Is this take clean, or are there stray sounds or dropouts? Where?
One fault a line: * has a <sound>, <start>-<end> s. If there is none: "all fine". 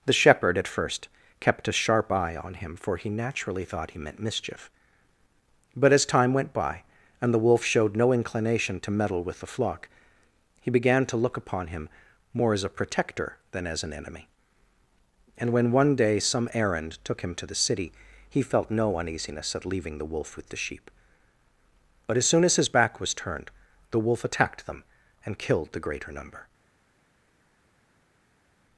all fine